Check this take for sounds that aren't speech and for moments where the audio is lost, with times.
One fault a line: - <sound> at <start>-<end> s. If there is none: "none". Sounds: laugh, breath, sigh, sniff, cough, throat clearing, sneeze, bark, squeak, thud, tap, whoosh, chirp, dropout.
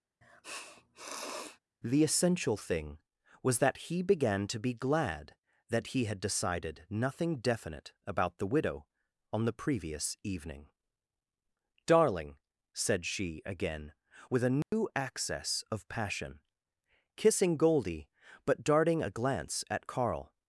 - sniff at 0.2-1.6 s
- dropout at 14.6-14.7 s